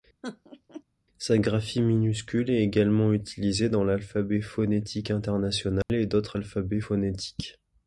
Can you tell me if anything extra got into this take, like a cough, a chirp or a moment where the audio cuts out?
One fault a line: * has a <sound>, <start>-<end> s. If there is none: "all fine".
* has a laugh, 0.2-0.8 s
* has a dropout, 5.8-5.9 s